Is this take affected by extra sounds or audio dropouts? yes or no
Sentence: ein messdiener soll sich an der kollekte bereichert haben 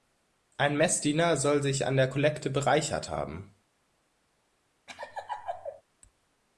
yes